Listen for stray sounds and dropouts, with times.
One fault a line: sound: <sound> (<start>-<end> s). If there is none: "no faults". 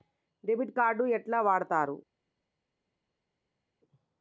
no faults